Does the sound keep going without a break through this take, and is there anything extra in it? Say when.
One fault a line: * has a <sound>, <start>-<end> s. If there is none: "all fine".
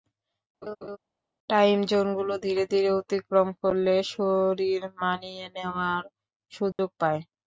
* has a laugh, 0.6-1.0 s
* has a dropout, 6.7-6.8 s